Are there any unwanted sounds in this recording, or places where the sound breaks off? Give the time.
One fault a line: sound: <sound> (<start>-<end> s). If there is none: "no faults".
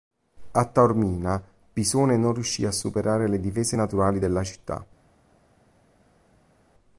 no faults